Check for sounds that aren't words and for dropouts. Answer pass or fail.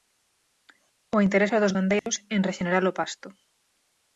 fail